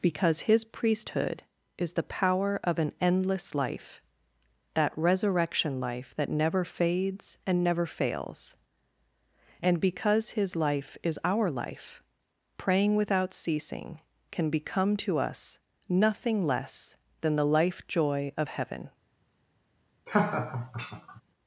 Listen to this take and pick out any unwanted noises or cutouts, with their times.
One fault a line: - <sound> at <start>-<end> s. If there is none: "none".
- laugh at 20.1-21.2 s